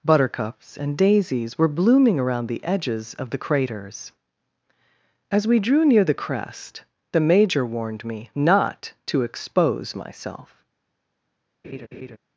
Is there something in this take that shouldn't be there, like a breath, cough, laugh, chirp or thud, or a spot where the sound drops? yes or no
yes